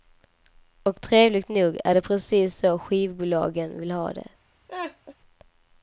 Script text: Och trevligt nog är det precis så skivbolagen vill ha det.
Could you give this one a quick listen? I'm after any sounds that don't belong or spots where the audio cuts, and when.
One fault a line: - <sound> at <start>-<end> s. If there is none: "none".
- laugh at 4.7-5.1 s